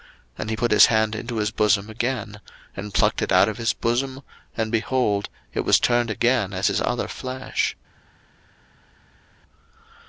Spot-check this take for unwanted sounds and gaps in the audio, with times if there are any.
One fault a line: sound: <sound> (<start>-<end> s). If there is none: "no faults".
no faults